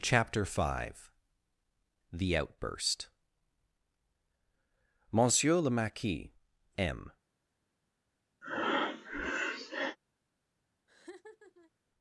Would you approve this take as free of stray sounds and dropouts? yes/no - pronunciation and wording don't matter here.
no